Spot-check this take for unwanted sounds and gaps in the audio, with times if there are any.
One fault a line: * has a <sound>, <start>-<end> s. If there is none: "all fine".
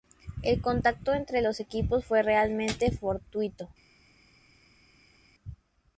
all fine